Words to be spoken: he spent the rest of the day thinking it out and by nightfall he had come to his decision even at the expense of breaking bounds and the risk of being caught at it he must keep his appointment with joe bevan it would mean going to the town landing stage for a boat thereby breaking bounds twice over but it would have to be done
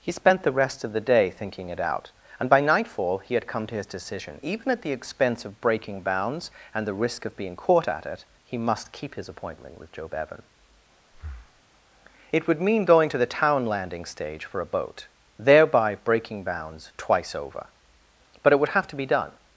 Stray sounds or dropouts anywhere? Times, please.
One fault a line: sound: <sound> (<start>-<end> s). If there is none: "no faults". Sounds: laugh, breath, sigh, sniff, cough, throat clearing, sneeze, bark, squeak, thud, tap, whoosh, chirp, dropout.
sound: breath (11.1-11.6 s)